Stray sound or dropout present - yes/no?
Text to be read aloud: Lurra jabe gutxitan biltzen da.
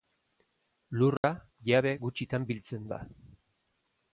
yes